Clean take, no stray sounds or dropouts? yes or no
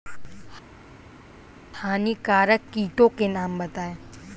yes